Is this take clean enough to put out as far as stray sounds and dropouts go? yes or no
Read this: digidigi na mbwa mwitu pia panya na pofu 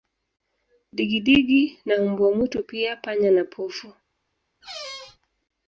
no